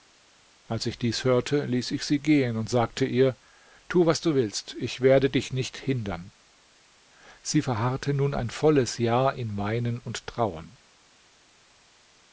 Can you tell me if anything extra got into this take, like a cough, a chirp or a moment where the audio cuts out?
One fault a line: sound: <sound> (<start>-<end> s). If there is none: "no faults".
no faults